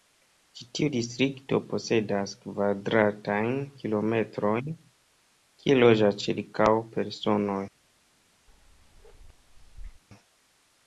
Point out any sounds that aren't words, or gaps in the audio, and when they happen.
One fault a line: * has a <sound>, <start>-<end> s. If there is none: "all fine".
* has a bark, 8.5-10.0 s